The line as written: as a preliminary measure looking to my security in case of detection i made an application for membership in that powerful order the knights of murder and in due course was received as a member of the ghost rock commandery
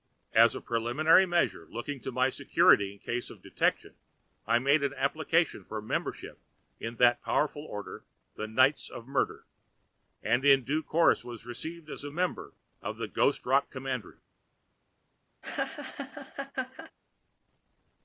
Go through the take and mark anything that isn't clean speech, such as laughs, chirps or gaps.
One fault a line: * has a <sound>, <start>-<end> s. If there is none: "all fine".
* has a laugh, 15.4-16.9 s